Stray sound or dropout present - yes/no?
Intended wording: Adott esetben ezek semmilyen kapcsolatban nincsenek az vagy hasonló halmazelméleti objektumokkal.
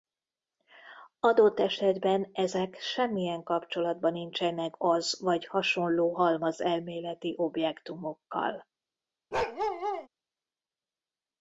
yes